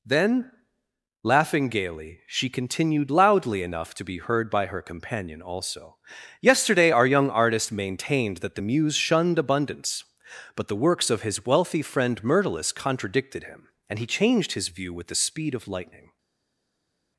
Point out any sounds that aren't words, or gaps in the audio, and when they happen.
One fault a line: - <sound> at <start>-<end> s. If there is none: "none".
none